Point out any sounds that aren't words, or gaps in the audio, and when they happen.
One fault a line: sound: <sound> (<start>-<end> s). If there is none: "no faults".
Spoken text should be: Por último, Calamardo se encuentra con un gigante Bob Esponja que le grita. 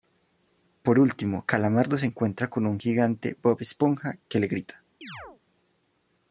sound: chirp (5.0-5.4 s)